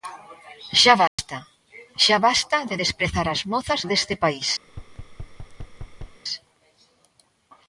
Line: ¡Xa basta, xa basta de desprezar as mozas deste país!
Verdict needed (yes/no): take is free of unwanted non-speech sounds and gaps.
no